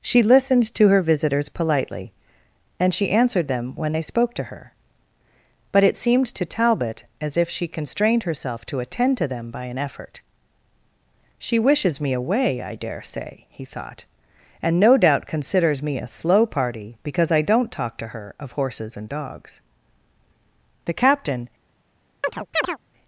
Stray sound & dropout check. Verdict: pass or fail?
fail